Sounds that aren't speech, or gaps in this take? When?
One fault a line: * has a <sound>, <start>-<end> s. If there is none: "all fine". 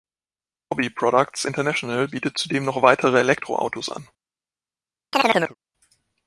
* has a chirp, 5.1-5.6 s